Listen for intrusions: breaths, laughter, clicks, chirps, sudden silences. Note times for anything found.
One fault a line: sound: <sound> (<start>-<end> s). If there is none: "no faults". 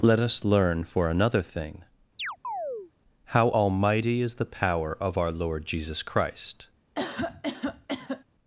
sound: chirp (2.2-2.9 s)
sound: cough (6.9-8.2 s)